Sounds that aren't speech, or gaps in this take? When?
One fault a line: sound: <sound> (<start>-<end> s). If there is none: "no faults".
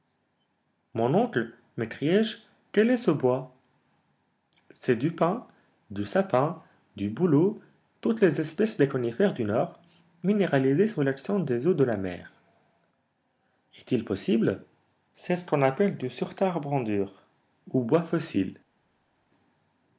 no faults